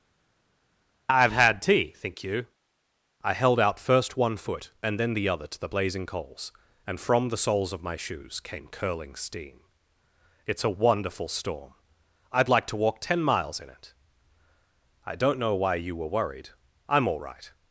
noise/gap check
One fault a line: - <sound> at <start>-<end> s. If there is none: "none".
none